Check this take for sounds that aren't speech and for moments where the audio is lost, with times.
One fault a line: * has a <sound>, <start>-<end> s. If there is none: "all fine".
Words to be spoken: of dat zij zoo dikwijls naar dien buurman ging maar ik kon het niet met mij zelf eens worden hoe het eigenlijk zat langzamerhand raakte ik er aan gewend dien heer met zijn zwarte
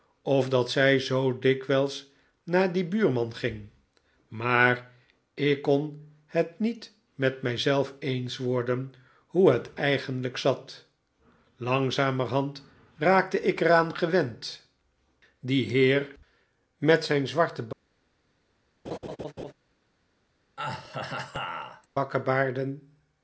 * has a laugh, 18.8-19.5 s
* has a laugh, 20.6-21.9 s